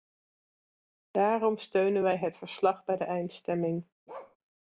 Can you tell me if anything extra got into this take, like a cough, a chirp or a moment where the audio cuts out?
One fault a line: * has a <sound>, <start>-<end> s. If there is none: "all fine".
* has a bark, 4.1-4.4 s